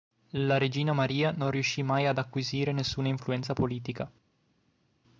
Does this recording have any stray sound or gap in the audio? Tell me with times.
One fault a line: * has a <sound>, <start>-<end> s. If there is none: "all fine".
all fine